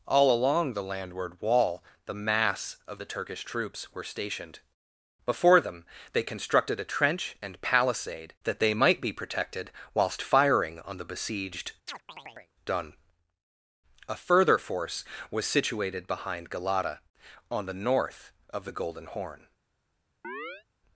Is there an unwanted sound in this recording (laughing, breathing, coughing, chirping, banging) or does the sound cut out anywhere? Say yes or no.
yes